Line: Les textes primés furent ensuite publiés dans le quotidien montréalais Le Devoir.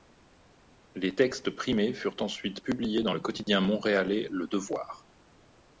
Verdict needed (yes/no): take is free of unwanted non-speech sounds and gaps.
no